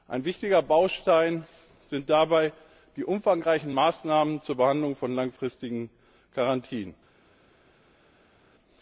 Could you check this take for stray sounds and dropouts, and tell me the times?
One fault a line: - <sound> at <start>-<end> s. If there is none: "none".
none